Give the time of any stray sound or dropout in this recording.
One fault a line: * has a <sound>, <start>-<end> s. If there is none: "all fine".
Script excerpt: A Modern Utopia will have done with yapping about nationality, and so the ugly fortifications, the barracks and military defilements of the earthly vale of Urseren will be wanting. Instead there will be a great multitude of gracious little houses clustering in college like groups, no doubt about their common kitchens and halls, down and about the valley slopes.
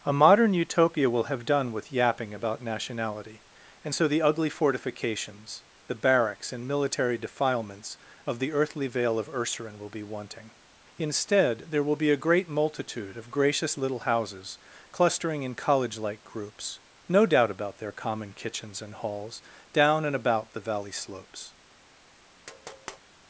* has a tap, 22.5-23.0 s